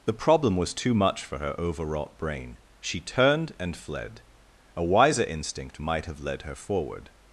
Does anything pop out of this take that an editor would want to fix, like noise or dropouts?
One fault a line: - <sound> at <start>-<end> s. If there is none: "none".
none